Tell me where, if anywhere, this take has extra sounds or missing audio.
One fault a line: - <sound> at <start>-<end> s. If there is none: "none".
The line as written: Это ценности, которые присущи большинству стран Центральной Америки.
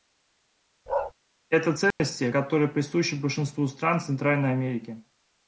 - bark at 0.9-1.1 s
- dropout at 1.9-2.0 s